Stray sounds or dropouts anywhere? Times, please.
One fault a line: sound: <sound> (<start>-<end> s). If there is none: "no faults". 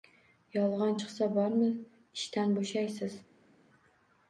no faults